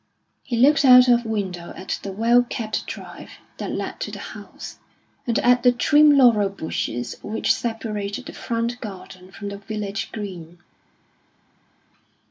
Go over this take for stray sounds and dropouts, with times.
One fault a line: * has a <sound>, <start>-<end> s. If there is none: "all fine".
all fine